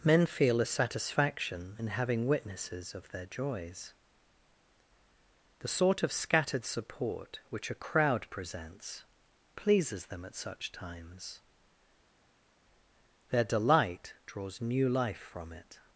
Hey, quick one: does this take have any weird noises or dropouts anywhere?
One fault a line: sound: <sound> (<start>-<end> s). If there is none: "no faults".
no faults